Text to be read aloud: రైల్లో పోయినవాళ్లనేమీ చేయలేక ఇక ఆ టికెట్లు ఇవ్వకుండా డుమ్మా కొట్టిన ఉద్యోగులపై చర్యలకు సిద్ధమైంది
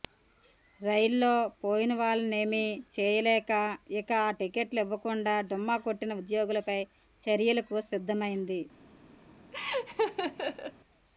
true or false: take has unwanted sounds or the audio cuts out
true